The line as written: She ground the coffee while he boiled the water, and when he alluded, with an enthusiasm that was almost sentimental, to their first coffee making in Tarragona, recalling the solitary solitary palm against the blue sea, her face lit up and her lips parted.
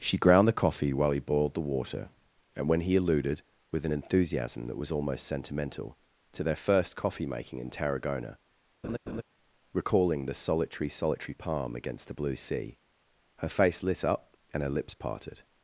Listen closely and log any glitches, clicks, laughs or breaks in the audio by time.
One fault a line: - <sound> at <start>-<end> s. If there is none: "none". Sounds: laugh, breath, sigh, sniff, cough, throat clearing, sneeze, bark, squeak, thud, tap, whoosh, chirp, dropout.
- laugh at 8.8-9.2 s